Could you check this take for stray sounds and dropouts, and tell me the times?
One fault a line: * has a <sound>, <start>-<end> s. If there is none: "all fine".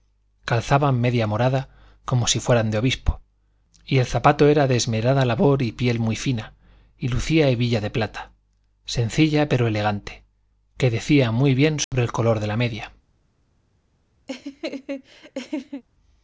* has a dropout, 11.8-11.9 s
* has a laugh, 14.3-15.8 s